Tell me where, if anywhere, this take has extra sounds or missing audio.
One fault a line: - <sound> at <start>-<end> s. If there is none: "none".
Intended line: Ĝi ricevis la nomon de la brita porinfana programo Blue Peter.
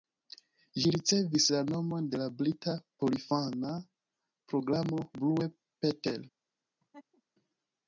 - laugh at 6.8-7.2 s